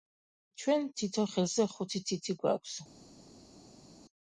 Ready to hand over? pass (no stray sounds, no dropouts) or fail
pass